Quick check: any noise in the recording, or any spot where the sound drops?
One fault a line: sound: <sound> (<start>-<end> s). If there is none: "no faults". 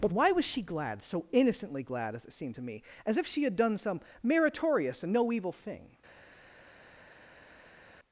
no faults